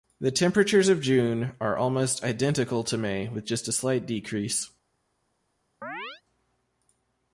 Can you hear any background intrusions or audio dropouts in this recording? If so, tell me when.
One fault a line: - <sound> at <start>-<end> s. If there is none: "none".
- chirp at 5.8-6.2 s